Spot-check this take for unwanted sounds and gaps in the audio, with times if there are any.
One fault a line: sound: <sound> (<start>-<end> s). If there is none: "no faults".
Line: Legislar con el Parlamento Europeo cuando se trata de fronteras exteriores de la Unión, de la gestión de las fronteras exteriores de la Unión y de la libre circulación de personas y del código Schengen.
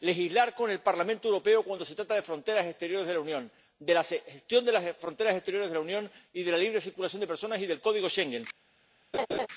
sound: laugh (9.1-9.5 s)